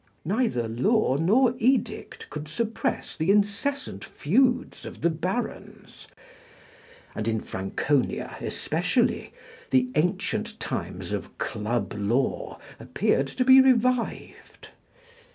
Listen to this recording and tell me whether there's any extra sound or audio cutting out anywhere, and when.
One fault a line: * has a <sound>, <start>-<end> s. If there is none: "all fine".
all fine